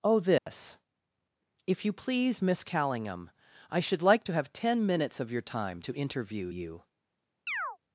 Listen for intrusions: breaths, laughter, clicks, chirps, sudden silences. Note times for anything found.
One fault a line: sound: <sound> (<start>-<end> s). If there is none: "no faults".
sound: dropout (0.4-0.5 s)
sound: chirp (7.5-7.8 s)